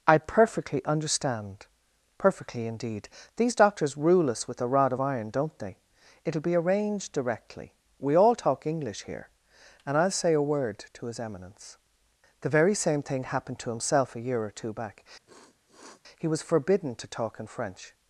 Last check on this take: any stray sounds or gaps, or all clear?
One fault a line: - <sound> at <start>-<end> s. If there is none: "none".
- sniff at 15.3-16.0 s